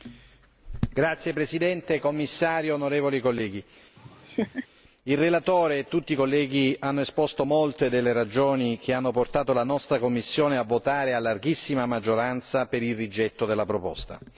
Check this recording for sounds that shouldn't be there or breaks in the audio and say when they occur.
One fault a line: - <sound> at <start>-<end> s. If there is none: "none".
- laugh at 4.0-4.7 s